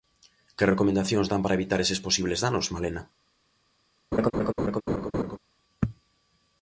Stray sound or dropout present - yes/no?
yes